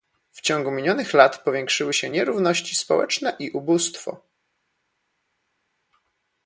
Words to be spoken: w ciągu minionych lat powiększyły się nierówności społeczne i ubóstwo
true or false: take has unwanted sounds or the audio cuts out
false